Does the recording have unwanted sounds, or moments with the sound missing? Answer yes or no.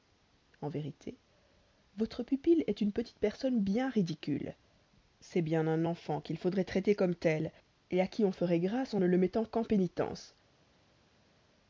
no